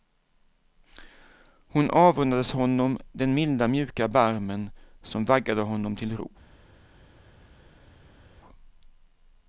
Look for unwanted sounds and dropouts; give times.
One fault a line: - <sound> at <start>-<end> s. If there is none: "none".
none